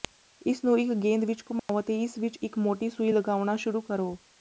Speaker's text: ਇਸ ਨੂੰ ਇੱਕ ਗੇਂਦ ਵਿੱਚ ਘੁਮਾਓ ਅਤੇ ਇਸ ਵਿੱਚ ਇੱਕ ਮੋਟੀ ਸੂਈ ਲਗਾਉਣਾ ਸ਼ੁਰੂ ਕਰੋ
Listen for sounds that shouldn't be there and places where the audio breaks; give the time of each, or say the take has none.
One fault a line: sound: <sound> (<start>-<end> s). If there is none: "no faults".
sound: dropout (1.6-1.7 s)